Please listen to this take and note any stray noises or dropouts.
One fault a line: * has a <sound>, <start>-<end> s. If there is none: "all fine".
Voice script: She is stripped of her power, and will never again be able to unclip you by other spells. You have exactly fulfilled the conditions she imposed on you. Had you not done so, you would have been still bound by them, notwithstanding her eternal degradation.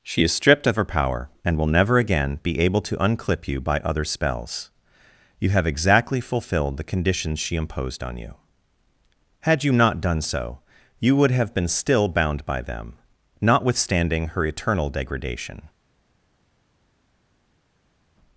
all fine